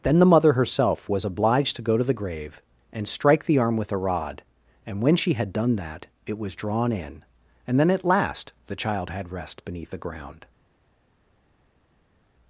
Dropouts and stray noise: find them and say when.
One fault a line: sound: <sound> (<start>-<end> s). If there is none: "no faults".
no faults